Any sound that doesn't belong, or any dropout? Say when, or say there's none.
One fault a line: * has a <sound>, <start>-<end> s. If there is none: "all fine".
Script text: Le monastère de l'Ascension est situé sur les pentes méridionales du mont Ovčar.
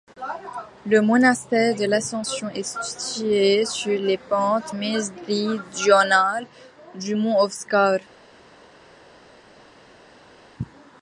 all fine